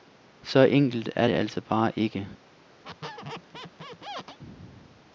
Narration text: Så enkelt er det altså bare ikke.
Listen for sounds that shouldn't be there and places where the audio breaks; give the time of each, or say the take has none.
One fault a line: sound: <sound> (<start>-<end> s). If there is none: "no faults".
sound: squeak (2.8-4.4 s)